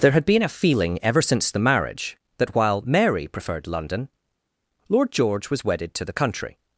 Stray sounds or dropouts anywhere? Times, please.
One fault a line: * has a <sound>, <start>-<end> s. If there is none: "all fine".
all fine